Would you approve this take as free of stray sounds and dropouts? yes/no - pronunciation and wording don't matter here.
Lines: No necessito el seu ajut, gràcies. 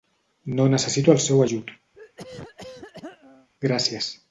no